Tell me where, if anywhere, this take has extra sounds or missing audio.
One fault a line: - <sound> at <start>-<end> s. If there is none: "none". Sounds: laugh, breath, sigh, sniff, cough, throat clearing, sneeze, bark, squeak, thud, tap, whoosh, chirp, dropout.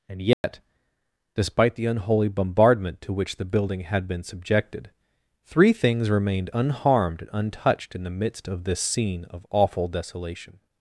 - dropout at 0.3-0.4 s